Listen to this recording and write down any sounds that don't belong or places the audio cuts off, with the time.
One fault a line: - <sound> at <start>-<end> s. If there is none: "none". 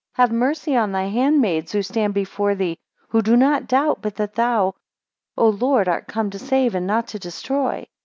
none